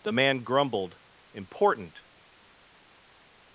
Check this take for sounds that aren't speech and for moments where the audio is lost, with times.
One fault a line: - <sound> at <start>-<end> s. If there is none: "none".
none